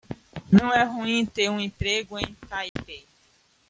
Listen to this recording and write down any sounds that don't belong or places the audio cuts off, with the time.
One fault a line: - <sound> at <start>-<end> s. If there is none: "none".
- dropout at 2.7-2.8 s